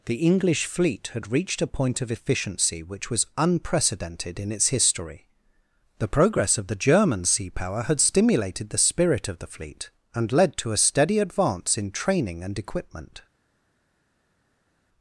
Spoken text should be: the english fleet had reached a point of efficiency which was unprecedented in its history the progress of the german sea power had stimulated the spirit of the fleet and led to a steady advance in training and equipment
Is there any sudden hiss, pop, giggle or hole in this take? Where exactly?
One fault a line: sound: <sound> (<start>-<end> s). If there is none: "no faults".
no faults